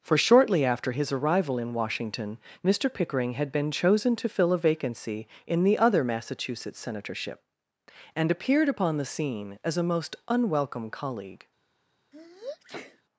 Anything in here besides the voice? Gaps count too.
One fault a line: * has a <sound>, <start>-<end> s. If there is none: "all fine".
* has a sneeze, 12.1-13.0 s